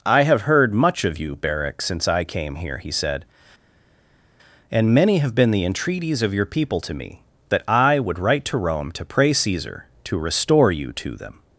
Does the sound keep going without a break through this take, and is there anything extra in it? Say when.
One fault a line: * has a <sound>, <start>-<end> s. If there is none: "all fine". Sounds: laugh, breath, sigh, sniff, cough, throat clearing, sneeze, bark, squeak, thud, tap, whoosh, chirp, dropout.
all fine